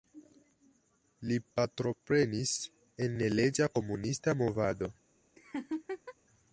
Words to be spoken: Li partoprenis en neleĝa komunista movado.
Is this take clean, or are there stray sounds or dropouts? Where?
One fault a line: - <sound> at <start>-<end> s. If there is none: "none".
- laugh at 5.4-6.1 s